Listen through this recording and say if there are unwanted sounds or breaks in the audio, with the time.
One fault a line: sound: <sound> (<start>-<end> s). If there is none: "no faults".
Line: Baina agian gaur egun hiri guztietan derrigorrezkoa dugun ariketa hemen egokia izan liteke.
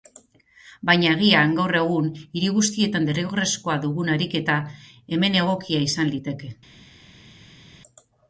no faults